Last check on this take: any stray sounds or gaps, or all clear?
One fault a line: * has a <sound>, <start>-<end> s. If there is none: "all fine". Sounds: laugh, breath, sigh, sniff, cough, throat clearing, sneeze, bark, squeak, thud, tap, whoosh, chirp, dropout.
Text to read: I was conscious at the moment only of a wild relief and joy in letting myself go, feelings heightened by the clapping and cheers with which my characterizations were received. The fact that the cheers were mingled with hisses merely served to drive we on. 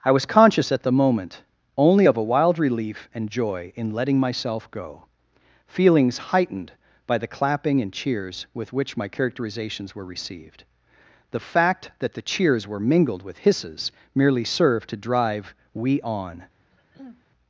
* has a throat clearing, 16.7-17.2 s